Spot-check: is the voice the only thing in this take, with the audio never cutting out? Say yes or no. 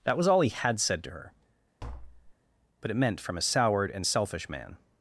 no